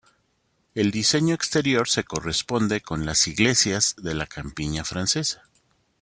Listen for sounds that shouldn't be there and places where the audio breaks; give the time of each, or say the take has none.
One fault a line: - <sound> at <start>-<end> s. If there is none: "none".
none